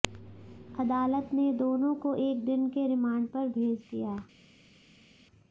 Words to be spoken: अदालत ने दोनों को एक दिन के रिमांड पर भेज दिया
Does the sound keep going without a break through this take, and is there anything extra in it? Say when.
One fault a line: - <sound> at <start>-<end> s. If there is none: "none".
none